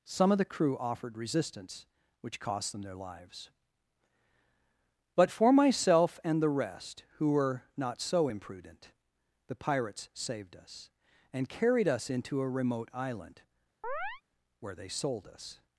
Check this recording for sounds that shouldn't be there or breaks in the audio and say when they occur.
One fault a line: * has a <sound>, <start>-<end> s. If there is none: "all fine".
* has a chirp, 13.8-14.2 s